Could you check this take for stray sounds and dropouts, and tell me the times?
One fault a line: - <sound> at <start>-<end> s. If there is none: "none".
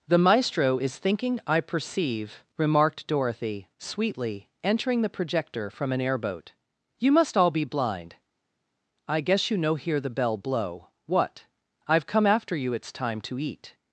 none